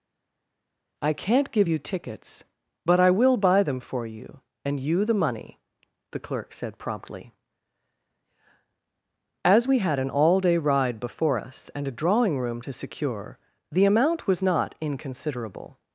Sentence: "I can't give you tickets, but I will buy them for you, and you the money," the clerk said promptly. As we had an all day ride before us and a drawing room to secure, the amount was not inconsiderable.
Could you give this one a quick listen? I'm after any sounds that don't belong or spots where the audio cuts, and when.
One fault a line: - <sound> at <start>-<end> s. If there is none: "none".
none